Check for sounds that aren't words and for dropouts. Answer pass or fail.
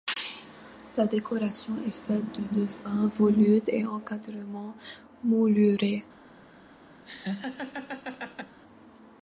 fail